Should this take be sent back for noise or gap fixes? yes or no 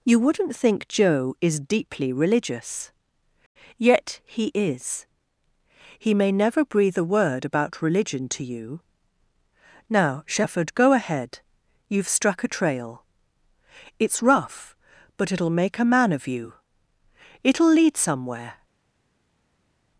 no